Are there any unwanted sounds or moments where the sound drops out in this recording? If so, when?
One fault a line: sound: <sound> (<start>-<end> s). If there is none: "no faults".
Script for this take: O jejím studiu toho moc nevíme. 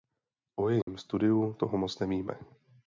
sound: dropout (0.8-0.9 s)